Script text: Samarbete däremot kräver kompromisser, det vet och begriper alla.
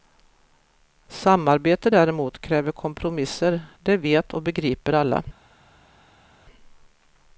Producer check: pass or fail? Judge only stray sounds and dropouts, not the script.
pass